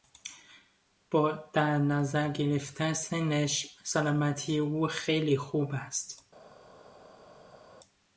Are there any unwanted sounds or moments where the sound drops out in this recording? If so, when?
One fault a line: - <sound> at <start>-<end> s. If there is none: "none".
none